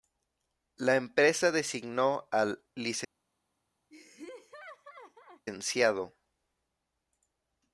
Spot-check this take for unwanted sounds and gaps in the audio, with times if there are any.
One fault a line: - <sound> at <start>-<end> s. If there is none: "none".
- laugh at 3.9-5.4 s